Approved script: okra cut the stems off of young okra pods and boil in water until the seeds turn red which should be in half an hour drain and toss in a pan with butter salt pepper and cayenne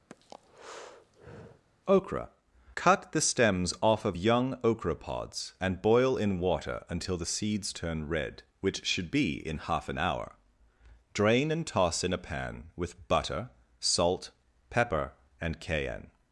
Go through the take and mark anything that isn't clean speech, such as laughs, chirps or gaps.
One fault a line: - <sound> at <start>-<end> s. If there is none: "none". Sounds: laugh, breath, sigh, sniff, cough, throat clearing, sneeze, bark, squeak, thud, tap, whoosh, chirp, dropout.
- breath at 0.1-1.6 s